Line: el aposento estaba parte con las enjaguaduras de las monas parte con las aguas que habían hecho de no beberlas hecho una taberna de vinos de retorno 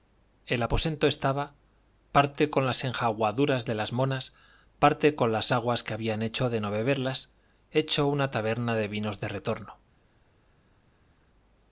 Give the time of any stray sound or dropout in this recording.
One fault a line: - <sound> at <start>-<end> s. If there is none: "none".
none